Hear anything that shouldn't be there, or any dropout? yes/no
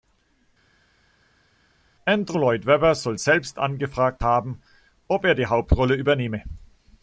no